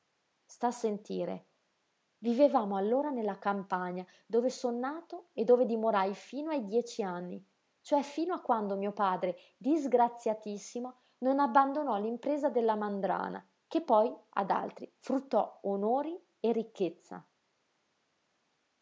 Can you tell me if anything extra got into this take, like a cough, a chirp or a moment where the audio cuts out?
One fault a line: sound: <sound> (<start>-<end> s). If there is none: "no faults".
no faults